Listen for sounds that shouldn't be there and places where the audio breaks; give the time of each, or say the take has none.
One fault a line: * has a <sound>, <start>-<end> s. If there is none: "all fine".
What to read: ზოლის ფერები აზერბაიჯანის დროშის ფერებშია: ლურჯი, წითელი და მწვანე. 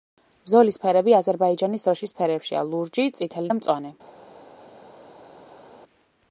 all fine